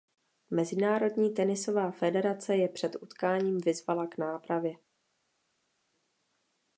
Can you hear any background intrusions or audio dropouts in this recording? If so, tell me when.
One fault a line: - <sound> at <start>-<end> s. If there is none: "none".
none